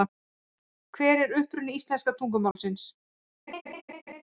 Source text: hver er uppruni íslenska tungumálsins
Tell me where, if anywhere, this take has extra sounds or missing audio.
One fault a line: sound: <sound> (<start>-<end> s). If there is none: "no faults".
sound: dropout (2.5-2.6 s)
sound: laugh (3.5-4.2 s)